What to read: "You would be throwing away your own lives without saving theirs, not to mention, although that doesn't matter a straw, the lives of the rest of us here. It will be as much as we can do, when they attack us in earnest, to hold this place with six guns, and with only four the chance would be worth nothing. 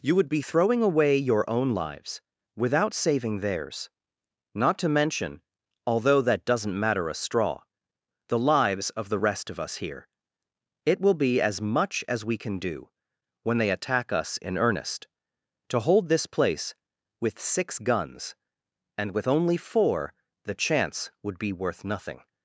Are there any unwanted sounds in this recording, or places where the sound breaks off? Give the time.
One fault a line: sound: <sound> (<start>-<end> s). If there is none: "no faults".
no faults